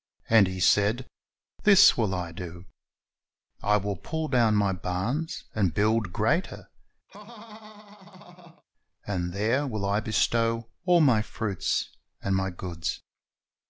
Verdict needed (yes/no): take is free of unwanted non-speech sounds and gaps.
no